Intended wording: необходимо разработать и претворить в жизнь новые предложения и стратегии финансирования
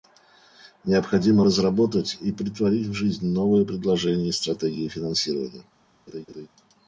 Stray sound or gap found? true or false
true